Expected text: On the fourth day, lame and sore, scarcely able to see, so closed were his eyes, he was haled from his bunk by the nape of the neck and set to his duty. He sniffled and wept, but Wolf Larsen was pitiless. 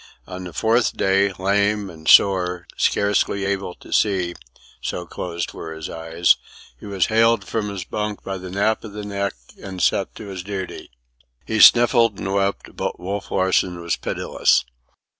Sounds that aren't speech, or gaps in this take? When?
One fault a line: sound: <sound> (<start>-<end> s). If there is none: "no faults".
no faults